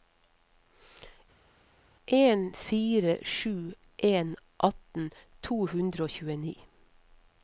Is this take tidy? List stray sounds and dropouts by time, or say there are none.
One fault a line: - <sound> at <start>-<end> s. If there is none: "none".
none